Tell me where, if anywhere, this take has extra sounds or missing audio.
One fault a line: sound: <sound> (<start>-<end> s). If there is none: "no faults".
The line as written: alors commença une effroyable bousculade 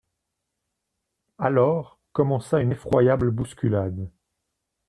no faults